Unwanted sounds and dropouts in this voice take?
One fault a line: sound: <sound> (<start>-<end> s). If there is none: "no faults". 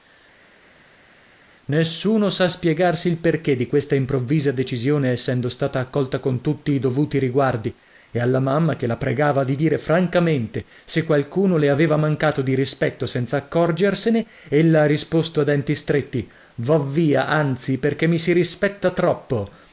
no faults